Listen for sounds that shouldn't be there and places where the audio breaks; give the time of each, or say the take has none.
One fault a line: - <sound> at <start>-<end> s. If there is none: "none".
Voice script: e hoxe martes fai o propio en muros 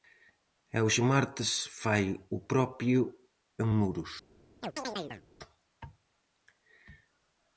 - chirp at 4.6-5.2 s